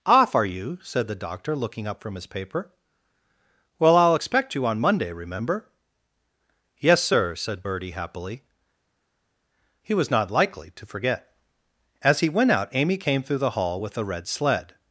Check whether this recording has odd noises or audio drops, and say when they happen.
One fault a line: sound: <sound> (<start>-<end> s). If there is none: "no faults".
no faults